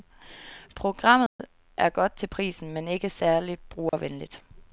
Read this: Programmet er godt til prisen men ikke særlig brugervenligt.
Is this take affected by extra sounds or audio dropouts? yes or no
yes